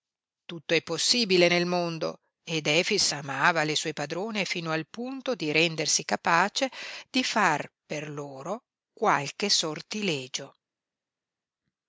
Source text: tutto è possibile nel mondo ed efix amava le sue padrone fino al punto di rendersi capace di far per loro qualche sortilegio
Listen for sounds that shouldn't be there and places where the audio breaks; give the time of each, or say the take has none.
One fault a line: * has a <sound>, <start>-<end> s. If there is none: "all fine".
all fine